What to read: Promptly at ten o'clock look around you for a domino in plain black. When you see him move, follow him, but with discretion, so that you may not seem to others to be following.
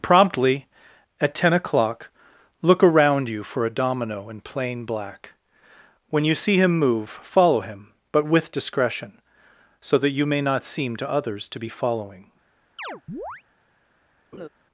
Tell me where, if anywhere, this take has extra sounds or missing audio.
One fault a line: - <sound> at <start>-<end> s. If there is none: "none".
- chirp at 12.8-13.4 s
- laugh at 14.3-14.5 s